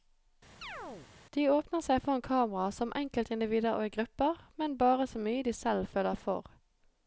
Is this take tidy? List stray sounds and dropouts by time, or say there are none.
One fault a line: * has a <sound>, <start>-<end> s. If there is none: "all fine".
* has a chirp, 0.6-1.1 s